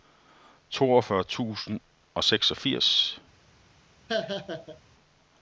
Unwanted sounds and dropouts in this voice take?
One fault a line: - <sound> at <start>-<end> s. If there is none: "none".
- laugh at 4.1-4.8 s